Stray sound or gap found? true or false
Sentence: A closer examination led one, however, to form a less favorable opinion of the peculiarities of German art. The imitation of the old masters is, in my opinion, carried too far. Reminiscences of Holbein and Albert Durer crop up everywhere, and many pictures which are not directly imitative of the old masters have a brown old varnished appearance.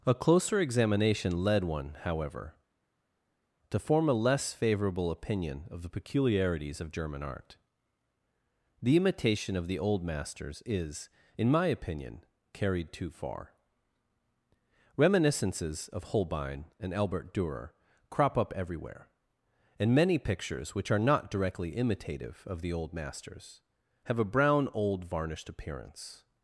false